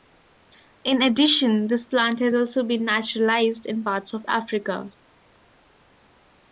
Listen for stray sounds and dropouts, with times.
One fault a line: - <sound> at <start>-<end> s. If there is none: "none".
none